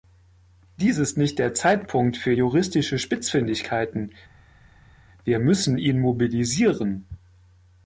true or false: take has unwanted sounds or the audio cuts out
false